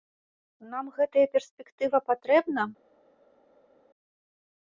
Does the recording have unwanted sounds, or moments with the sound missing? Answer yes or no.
no